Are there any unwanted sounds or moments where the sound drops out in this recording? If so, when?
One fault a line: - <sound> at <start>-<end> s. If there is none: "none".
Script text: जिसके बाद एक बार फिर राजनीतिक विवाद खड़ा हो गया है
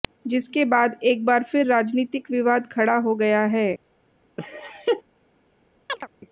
- laugh at 4.4-5.0 s
- chirp at 5.9-6.1 s